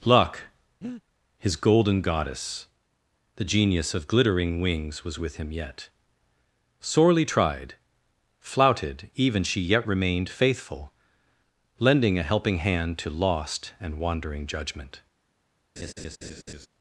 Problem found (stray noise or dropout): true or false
true